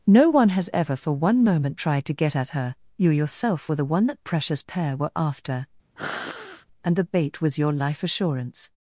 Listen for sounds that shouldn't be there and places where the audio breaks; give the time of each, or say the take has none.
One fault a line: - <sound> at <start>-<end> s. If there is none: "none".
- sniff at 6.0-6.7 s